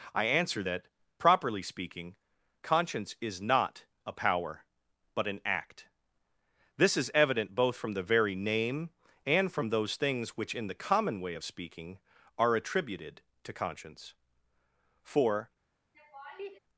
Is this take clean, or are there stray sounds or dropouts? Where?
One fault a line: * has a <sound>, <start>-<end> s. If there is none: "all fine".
* has a laugh, 15.9-16.6 s